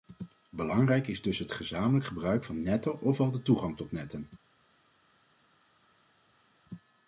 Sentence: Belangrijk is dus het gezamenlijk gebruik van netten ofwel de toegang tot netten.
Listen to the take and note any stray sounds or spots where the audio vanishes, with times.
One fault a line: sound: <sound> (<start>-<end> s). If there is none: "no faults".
no faults